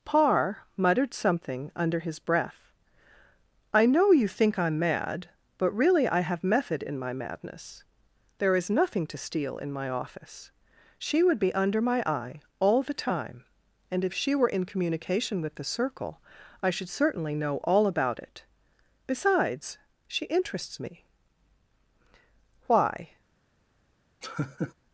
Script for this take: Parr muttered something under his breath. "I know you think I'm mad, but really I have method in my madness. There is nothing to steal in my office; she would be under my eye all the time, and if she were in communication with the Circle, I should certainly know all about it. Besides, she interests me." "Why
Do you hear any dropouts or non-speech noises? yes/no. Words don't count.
yes